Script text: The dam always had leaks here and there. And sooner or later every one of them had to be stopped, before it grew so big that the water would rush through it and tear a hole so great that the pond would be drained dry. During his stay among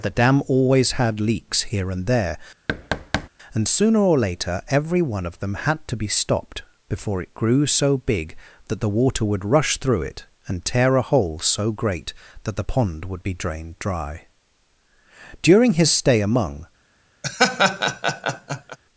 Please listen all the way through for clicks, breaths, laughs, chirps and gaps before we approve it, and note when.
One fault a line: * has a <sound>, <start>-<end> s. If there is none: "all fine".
* has a thud, 2.7-3.3 s
* has a laugh, 17.2-18.8 s